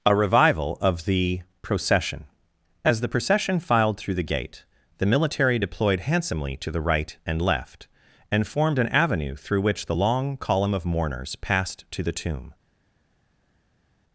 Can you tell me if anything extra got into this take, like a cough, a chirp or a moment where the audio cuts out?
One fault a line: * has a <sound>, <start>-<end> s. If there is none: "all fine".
all fine